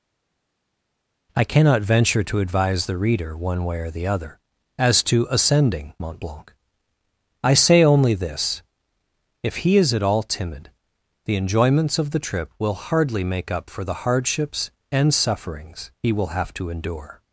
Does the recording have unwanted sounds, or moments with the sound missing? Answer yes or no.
no